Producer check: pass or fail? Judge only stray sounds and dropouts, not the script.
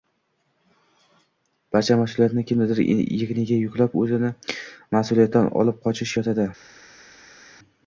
pass